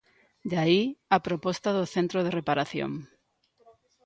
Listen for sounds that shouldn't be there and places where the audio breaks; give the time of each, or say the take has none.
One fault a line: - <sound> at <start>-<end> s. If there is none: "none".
none